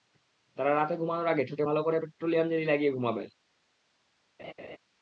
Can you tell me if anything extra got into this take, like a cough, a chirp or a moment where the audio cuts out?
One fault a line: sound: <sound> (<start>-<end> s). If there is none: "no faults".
sound: laugh (4.4-4.8 s)